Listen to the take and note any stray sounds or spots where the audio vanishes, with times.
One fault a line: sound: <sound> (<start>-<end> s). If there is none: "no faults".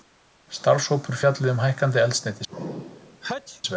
sound: sneeze (2.5-3.6 s)